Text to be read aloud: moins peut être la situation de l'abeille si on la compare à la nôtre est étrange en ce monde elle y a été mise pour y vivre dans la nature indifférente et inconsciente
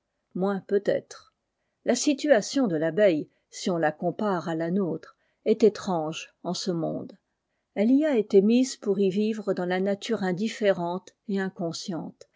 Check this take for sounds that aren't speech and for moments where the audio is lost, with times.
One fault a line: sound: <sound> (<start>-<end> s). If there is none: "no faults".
no faults